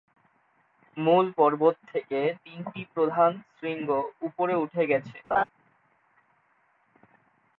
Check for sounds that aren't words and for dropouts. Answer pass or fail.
fail